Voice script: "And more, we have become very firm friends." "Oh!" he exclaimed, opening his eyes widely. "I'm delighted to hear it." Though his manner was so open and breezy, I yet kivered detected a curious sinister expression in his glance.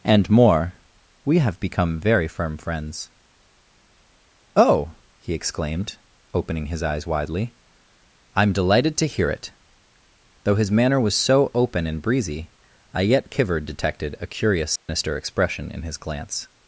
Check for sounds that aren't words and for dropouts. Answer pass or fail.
fail